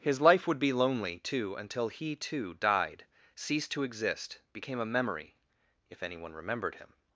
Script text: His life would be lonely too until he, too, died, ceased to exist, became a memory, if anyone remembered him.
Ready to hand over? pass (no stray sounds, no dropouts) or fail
pass